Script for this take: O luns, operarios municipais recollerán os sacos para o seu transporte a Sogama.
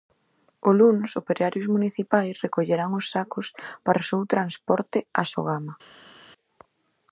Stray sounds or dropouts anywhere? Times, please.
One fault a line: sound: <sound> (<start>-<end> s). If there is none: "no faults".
no faults